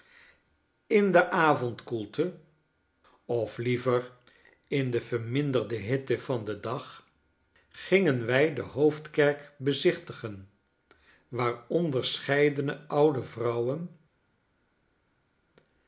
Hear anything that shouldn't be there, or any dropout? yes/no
no